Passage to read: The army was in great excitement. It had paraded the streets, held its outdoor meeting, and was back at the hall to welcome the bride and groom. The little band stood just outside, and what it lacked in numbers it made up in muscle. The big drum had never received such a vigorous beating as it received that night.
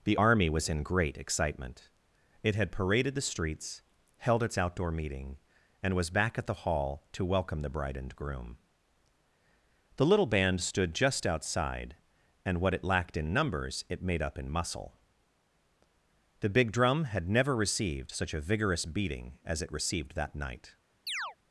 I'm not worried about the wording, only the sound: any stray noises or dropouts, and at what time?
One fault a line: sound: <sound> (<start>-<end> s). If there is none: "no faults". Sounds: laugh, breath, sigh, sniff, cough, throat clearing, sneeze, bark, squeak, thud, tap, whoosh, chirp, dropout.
sound: chirp (21.1-21.4 s)